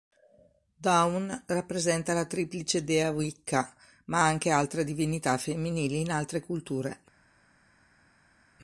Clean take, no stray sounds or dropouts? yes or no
yes